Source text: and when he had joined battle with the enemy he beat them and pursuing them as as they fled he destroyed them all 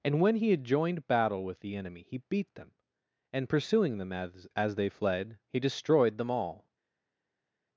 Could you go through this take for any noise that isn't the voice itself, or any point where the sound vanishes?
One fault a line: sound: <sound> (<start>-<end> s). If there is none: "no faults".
no faults